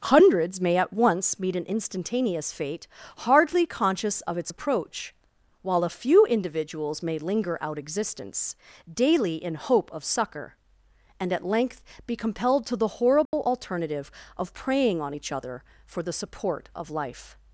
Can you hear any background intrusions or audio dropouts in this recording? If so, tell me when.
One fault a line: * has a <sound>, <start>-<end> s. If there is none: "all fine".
* has a dropout, 13.3-13.3 s